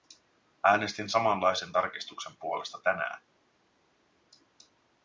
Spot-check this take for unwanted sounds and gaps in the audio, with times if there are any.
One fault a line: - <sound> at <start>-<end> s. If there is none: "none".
none